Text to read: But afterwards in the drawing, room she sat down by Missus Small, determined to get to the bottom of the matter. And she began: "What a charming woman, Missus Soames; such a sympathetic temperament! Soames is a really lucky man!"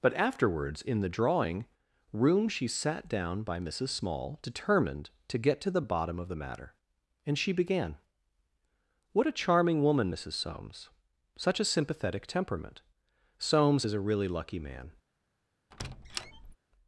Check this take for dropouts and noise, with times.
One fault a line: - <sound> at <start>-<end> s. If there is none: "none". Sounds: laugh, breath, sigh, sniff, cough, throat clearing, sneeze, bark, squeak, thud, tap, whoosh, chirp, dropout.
- squeak at 15.7-16.6 s